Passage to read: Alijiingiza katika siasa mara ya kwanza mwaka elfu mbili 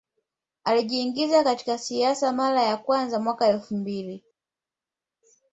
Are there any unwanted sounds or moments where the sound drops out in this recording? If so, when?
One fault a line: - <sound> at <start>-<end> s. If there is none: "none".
none